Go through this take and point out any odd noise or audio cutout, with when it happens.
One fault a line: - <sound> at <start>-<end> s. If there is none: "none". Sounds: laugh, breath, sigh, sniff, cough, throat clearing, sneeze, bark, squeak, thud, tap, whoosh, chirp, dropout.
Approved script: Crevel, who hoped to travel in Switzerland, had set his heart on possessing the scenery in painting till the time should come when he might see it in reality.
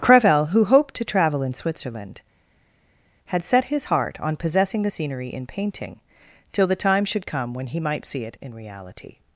none